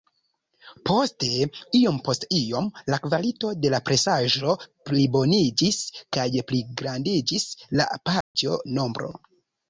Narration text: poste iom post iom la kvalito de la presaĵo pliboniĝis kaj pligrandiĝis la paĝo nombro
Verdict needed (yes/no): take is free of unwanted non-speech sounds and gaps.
no